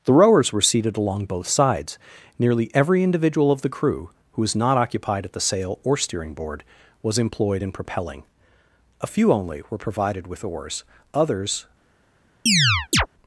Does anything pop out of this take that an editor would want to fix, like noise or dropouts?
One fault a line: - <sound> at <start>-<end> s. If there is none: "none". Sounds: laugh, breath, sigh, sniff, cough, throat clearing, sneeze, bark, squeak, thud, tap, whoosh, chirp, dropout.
- chirp at 12.5-13.1 s